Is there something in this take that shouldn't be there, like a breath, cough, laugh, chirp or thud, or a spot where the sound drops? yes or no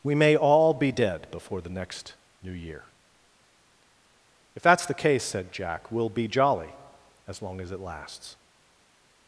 no